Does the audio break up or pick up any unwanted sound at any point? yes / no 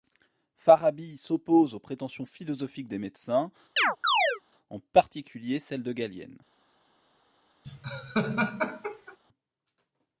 yes